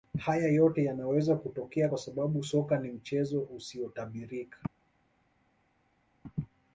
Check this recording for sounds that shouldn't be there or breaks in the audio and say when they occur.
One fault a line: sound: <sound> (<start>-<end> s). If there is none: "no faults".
no faults